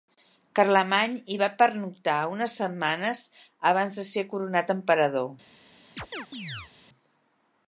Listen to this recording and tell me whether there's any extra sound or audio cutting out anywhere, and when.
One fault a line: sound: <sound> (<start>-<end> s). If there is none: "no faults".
sound: chirp (6.0-6.7 s)